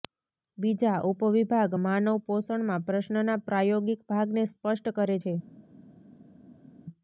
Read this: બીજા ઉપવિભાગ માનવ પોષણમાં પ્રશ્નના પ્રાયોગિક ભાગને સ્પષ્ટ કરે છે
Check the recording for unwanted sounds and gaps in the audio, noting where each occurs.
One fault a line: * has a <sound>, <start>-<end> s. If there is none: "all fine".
all fine